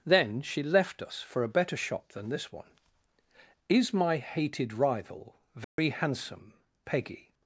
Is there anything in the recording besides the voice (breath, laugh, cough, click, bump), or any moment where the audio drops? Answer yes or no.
yes